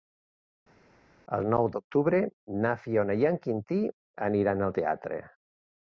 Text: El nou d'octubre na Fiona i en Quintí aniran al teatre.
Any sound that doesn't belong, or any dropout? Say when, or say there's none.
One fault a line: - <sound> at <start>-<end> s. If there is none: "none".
none